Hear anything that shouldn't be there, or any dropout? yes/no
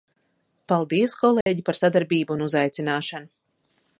yes